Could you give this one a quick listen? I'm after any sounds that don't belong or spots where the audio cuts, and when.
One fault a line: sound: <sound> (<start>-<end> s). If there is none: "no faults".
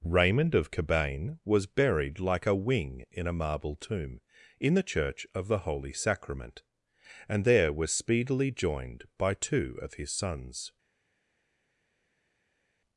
no faults